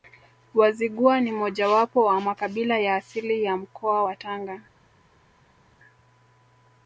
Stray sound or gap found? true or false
false